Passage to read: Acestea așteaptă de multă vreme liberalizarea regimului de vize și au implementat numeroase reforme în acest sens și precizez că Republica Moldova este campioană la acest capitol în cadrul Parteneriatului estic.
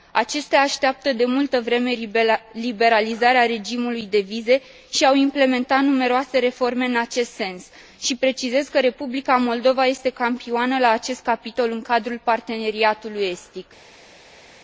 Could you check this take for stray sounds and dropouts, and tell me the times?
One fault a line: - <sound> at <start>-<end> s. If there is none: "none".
none